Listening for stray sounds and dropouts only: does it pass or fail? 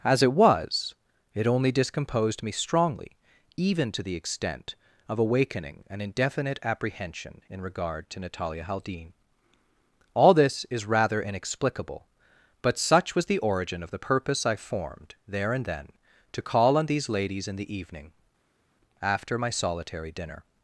pass